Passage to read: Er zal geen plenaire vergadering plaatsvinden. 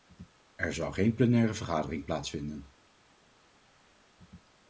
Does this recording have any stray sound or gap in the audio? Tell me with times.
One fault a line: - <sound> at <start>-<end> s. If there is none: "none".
none